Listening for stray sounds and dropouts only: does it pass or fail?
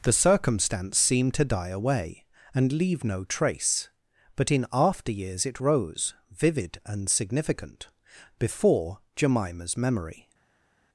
pass